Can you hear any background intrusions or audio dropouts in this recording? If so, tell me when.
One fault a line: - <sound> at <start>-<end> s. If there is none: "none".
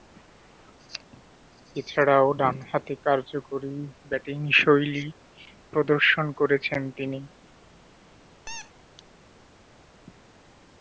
- squeak at 8.5-8.7 s